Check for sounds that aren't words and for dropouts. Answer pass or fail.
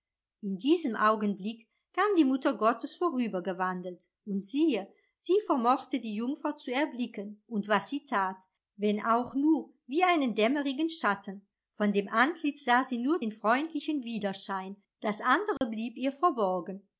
fail